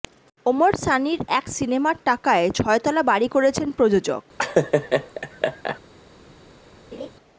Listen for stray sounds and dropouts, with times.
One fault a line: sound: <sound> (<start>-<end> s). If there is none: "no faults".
sound: laugh (4.4-5.8 s)
sound: laugh (6.9-7.1 s)